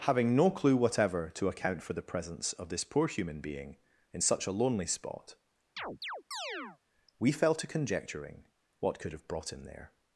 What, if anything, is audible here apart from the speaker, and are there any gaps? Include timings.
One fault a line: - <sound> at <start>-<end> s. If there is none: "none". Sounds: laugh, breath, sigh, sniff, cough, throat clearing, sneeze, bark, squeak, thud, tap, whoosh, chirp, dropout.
- chirp at 5.8-6.8 s